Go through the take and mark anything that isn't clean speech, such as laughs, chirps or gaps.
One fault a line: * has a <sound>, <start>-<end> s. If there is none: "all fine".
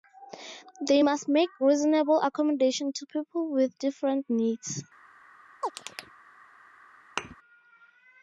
* has a chirp, 5.6-6.2 s
* has a thud, 7.2-7.4 s